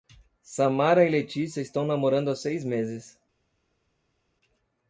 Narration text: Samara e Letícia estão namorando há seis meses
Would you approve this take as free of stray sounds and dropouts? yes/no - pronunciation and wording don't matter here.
yes